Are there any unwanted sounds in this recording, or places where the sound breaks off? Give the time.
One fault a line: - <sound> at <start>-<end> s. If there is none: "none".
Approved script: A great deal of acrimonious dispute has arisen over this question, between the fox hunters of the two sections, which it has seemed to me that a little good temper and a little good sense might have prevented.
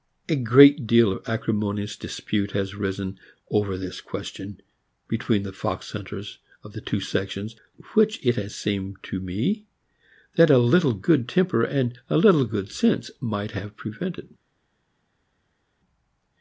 none